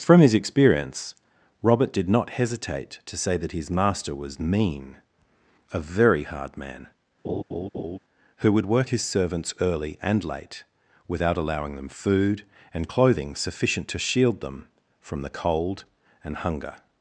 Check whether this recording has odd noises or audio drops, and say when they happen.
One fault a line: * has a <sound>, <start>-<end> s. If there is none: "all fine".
* has a laugh, 7.2-8.0 s